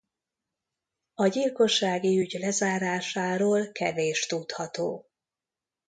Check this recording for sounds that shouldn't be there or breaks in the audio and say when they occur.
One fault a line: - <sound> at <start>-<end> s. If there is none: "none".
none